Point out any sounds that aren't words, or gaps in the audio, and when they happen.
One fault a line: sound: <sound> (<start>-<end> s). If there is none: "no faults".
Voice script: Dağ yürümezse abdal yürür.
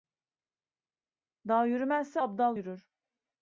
no faults